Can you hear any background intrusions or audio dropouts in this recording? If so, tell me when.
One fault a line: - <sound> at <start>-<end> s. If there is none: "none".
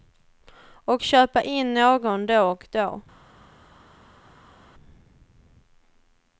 none